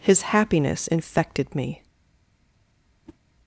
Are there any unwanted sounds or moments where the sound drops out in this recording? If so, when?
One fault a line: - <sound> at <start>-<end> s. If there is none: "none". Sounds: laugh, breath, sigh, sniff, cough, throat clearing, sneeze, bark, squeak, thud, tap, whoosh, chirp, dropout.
- whoosh at 3.1-3.2 s